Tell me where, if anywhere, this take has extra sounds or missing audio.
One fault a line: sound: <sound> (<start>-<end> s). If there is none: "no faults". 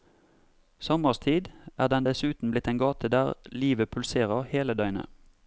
no faults